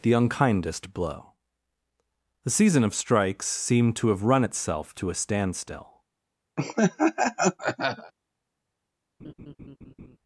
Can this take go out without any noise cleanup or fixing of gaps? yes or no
no